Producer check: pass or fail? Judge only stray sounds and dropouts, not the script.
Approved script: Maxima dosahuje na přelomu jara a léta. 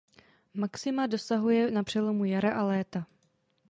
pass